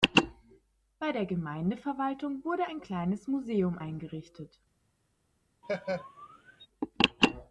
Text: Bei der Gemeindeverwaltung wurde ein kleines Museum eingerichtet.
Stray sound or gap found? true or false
true